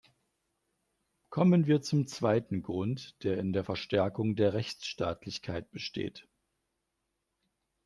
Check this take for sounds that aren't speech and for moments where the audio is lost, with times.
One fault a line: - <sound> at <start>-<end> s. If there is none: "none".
none